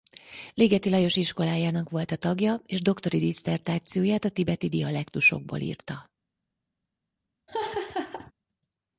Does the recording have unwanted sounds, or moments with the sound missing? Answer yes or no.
yes